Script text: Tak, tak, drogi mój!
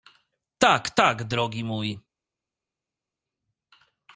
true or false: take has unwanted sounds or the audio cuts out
false